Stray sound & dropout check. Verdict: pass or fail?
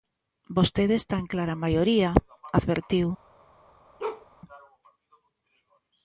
fail